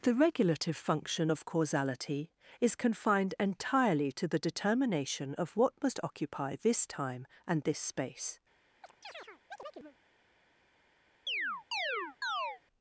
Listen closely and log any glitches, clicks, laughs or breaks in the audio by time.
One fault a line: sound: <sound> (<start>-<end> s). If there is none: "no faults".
sound: chirp (8.8-10.0 s)
sound: chirp (11.3-12.6 s)